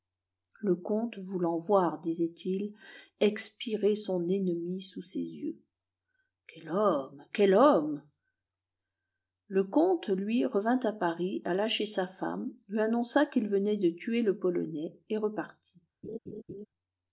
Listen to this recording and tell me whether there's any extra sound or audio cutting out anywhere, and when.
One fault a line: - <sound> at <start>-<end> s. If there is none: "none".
- laugh at 16.0-16.7 s